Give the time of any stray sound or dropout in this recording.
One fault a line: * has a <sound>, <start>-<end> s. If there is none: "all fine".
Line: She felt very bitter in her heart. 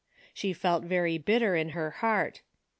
all fine